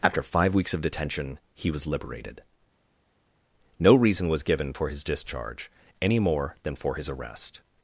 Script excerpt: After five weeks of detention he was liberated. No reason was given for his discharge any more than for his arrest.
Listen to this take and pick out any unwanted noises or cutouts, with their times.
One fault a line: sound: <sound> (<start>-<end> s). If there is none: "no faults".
no faults